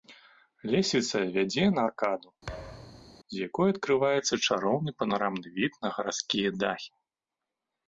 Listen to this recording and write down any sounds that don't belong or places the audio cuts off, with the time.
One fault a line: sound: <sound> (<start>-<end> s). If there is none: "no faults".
sound: thud (2.5-3.2 s)